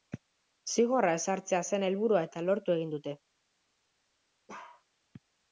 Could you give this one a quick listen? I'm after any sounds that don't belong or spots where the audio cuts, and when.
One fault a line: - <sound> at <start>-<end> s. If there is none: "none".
- bark at 4.5-4.8 s